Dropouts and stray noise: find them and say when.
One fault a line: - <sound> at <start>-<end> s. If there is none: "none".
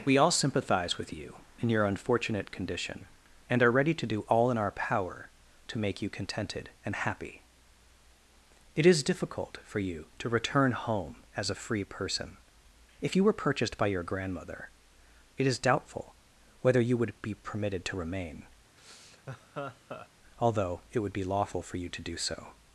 - laugh at 18.8-20.1 s